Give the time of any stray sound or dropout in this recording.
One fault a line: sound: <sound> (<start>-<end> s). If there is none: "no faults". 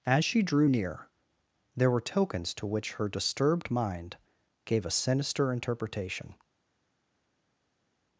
no faults